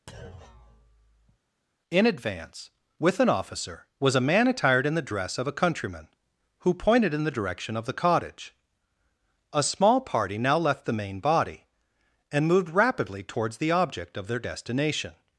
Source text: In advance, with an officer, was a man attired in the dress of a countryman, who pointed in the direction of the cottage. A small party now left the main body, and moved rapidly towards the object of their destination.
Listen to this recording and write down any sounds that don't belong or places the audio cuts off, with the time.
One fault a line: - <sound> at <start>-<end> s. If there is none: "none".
- thud at 0.1-1.4 s